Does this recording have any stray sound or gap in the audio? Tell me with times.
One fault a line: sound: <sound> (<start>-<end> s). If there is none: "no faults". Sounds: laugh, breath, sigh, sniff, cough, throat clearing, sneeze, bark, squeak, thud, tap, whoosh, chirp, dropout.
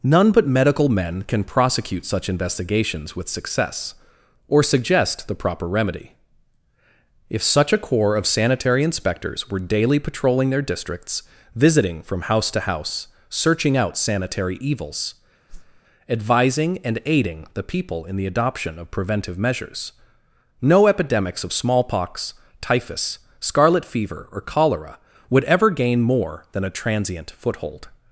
sound: whoosh (15.5-15.8 s)